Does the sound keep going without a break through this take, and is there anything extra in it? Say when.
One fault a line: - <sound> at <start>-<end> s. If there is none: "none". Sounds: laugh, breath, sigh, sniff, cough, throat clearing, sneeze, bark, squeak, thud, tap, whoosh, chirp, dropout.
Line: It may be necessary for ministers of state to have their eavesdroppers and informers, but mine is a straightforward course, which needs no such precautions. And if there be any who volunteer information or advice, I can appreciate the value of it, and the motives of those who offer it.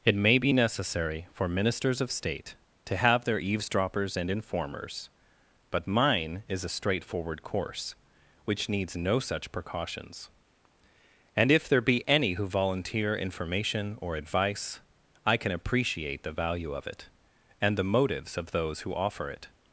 none